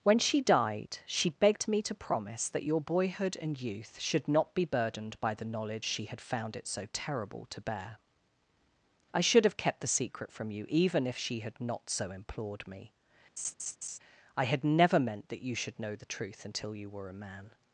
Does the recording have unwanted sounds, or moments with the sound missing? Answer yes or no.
yes